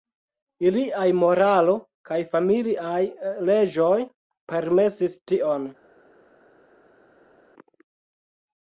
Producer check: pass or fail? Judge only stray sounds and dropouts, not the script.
pass